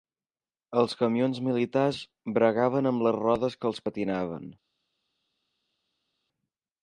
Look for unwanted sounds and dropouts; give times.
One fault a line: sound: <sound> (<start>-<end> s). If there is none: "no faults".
no faults